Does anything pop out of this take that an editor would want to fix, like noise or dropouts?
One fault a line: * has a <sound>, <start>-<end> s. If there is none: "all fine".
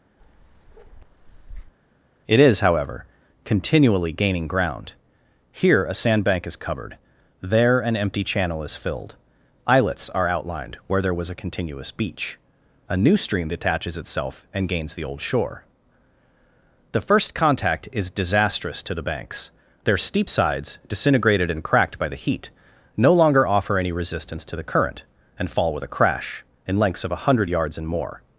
* has a bark, 0.2-1.7 s